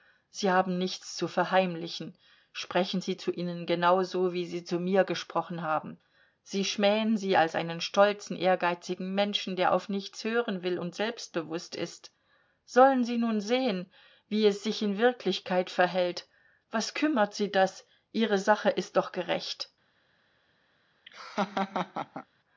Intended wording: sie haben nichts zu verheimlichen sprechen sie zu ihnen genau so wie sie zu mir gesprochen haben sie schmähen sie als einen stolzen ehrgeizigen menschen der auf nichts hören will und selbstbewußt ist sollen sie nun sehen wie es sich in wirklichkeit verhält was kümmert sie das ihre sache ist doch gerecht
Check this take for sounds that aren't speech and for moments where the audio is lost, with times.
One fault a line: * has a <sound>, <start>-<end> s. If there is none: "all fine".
* has a laugh, 21.1-22.3 s